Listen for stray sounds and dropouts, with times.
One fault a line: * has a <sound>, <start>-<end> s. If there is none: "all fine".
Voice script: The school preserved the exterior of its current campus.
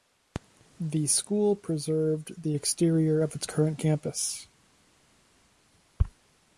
all fine